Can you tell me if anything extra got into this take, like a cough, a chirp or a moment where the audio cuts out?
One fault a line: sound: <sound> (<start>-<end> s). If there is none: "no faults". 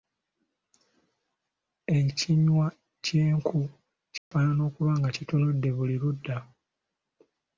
sound: dropout (4.2-4.3 s)